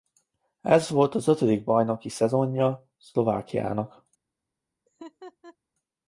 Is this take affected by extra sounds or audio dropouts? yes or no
yes